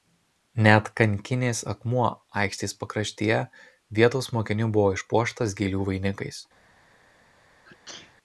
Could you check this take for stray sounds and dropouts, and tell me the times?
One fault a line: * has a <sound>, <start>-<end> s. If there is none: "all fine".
* has a sneeze, 7.6-8.1 s